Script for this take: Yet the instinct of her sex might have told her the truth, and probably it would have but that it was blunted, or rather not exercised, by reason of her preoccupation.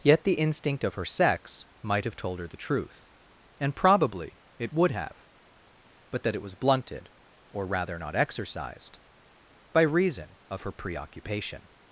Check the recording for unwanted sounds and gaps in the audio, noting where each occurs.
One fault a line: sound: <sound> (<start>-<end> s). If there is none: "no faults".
no faults